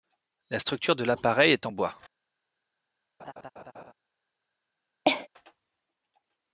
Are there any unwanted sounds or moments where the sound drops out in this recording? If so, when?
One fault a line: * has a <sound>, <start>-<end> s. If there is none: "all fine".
* has a laugh, 3.2-3.9 s
* has a cough, 5.0-5.3 s